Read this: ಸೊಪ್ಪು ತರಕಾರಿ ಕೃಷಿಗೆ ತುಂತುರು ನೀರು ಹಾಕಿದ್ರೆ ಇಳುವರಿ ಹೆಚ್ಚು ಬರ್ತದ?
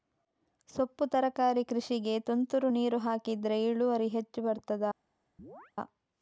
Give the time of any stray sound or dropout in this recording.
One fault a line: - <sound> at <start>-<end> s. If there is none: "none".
- chirp at 5.4-5.7 s